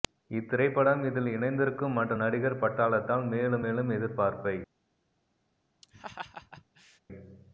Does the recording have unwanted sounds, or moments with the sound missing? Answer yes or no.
yes